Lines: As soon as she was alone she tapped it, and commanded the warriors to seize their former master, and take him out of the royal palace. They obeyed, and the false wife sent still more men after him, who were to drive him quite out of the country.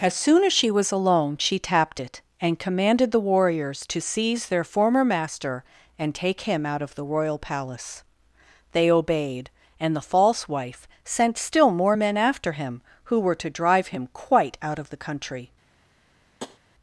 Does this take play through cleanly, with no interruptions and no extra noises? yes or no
no